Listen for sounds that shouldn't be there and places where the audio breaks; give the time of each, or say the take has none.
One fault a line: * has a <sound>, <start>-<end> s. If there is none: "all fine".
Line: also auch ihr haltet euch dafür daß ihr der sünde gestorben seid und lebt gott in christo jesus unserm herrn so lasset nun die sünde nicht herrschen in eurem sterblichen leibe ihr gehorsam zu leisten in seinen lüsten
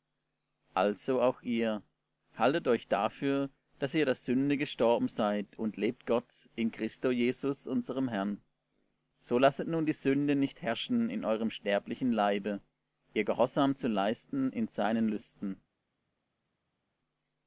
all fine